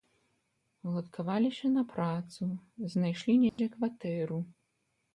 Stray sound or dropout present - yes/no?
yes